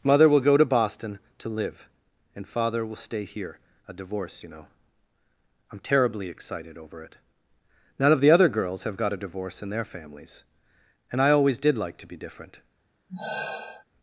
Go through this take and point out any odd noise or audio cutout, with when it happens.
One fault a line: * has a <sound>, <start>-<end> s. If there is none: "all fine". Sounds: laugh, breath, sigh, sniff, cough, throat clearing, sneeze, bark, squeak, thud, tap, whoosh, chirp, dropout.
* has a sigh, 13.1-13.8 s